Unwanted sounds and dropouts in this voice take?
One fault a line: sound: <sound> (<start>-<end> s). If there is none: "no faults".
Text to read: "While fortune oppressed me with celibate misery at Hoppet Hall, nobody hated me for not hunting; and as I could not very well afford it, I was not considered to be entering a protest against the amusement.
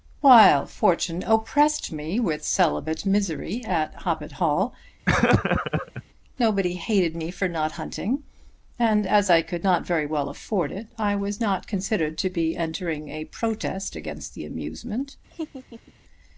sound: laugh (5.1-6.0 s)
sound: laugh (15.3-15.9 s)